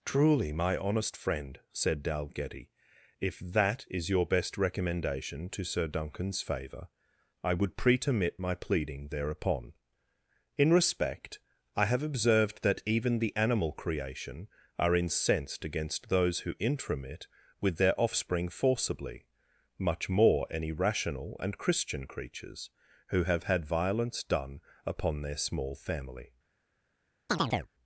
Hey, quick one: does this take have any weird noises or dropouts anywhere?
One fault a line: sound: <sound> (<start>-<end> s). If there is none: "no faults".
sound: chirp (27.3-27.7 s)